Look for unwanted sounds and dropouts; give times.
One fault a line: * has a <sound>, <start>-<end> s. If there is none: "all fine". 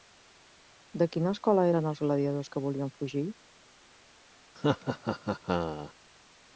* has a laugh, 4.5-5.9 s